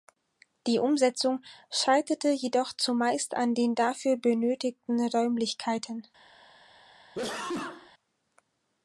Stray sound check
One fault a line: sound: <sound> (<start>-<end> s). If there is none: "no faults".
sound: sneeze (7.1-7.9 s)